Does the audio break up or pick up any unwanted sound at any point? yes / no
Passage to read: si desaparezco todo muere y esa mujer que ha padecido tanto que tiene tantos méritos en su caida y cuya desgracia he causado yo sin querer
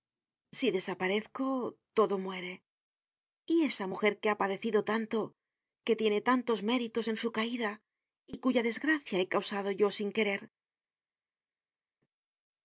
no